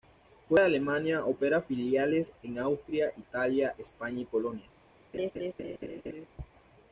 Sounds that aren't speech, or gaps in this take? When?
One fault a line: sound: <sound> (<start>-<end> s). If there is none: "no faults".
sound: laugh (5.1-6.3 s)